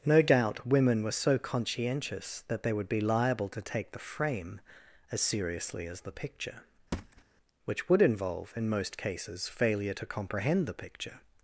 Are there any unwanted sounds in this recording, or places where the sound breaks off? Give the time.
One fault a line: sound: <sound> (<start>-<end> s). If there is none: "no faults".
sound: thud (6.9-7.2 s)